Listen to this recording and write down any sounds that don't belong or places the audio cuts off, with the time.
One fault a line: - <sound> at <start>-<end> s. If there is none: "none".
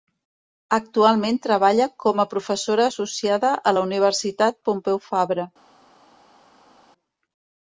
none